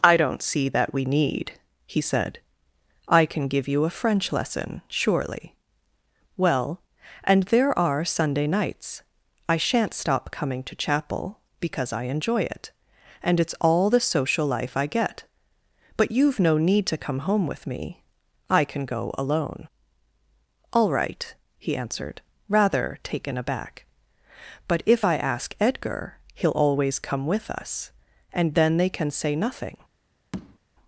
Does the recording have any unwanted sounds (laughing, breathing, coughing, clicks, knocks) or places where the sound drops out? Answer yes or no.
yes